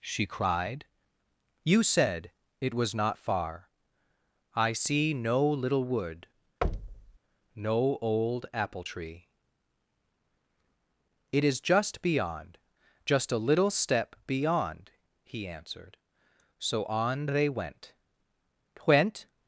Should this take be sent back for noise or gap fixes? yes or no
yes